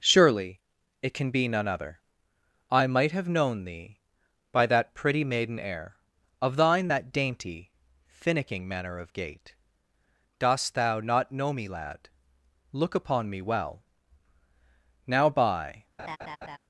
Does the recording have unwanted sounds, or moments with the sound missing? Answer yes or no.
yes